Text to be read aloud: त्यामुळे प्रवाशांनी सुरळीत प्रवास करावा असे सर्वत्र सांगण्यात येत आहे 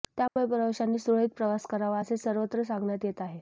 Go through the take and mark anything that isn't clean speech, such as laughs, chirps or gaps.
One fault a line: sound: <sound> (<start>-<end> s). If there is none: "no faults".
sound: dropout (0.3-0.4 s)